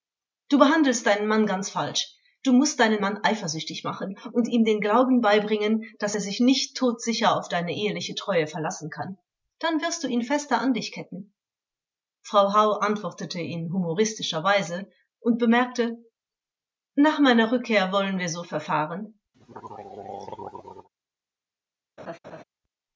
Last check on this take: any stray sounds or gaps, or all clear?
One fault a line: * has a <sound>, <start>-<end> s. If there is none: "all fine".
* has a throat clearing, 19.3-20.9 s
* has a laugh, 22.0-22.4 s